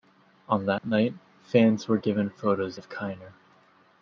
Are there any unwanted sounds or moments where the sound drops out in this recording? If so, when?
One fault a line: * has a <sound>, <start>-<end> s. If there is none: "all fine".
* has a dropout, 0.8-0.8 s